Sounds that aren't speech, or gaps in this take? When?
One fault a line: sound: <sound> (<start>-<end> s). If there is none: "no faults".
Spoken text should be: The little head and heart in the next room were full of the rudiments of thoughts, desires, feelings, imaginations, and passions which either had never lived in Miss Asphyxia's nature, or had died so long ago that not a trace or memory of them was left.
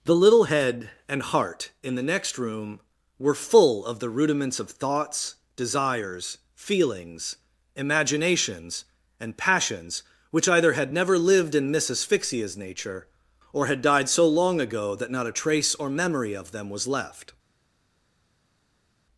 no faults